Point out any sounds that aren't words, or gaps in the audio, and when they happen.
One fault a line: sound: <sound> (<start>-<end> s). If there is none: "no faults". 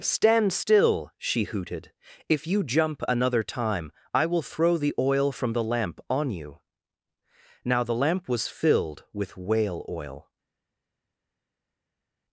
no faults